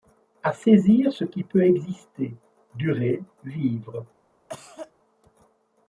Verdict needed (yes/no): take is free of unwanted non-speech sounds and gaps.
no